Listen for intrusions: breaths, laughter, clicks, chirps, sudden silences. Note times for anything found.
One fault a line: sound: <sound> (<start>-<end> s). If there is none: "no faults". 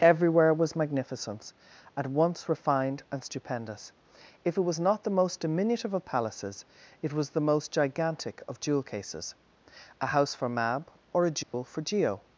sound: dropout (11.4-11.5 s)